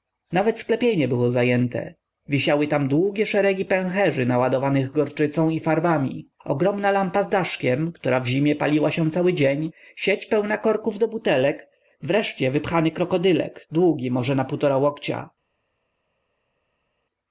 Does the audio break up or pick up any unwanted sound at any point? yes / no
no